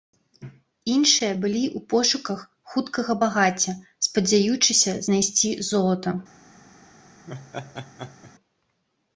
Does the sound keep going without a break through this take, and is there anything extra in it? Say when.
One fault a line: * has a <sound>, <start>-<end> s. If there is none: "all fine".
* has a laugh, 7.3-8.3 s